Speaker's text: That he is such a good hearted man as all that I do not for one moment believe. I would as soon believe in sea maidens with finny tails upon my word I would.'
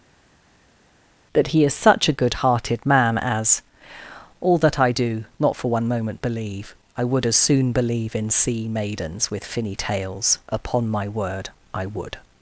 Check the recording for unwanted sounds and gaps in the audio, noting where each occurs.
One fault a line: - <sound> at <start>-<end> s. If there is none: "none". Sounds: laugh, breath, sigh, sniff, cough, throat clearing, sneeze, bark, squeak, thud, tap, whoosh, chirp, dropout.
none